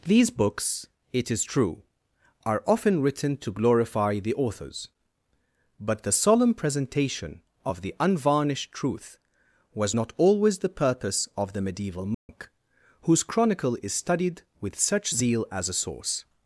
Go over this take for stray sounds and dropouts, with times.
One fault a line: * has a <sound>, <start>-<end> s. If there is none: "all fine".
* has a dropout, 12.1-12.3 s